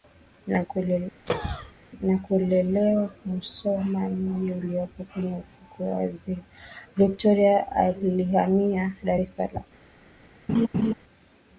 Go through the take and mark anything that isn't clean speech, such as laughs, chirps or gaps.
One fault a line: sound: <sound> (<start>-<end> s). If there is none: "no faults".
sound: cough (1.3-1.7 s)
sound: laugh (10.5-10.9 s)